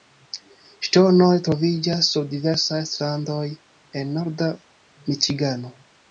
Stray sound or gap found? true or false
false